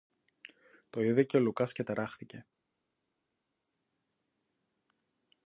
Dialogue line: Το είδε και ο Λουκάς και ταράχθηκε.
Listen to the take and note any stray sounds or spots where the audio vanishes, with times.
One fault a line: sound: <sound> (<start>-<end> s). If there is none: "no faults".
no faults